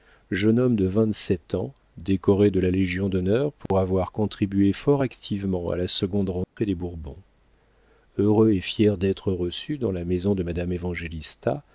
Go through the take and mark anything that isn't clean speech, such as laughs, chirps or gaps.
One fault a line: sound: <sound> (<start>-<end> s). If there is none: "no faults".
sound: dropout (3.7-3.7 s)
sound: dropout (6.4-6.6 s)